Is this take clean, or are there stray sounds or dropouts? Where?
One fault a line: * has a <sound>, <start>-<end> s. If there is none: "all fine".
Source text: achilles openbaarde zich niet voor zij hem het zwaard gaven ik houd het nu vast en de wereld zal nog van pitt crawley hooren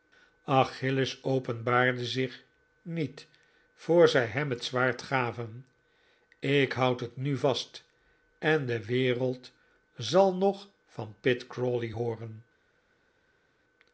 all fine